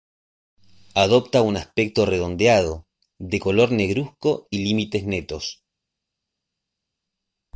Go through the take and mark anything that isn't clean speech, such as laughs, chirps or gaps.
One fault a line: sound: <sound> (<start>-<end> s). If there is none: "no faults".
no faults